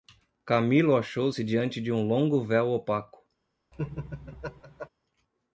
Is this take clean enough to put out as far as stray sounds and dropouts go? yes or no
no